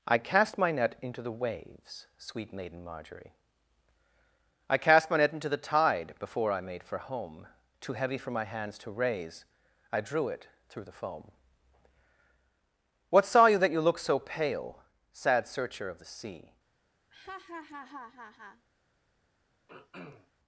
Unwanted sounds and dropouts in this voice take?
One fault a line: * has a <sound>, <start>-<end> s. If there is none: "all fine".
* has a laugh, 17.1-18.7 s
* has a throat clearing, 19.7-20.3 s